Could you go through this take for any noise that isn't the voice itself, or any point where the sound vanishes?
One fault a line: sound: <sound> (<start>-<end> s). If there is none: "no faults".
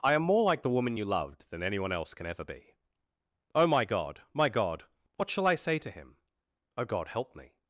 no faults